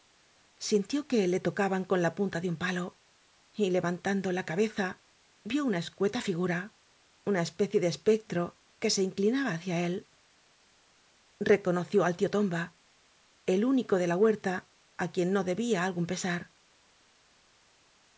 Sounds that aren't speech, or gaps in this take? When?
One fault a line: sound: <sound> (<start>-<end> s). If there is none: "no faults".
no faults